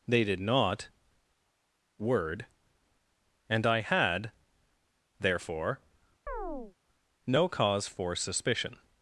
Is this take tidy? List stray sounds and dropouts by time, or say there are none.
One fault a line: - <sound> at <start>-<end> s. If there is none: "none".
- chirp at 6.3-6.8 s